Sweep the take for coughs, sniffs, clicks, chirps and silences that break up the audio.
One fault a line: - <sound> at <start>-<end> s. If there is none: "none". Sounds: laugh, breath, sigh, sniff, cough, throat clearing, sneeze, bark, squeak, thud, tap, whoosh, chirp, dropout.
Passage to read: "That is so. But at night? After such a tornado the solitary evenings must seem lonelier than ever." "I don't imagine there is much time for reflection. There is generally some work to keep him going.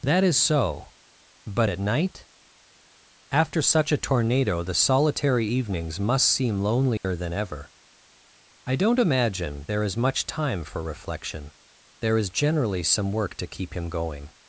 - dropout at 7.0-7.0 s